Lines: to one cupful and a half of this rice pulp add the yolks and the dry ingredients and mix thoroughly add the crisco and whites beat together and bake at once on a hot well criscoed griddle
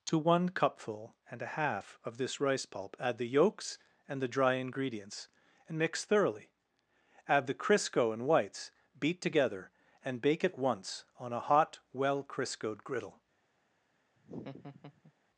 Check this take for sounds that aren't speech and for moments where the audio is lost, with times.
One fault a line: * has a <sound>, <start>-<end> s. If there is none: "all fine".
* has a laugh, 14.2-15.1 s